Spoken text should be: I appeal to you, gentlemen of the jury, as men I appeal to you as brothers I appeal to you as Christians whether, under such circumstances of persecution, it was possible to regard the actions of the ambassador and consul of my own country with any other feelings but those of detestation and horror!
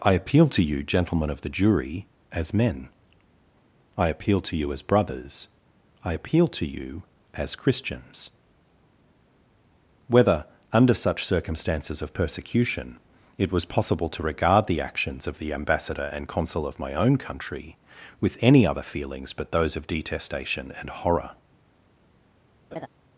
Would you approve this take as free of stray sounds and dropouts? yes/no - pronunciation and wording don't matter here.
no